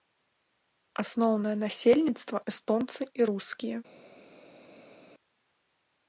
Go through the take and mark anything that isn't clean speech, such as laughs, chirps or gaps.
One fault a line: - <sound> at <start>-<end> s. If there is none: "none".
none